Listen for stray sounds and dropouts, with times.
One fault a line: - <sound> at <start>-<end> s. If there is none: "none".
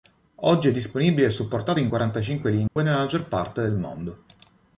- dropout at 2.7-2.8 s